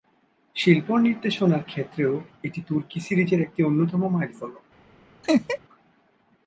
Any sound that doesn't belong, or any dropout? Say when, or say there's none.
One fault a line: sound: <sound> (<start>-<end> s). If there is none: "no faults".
sound: laugh (5.2-5.6 s)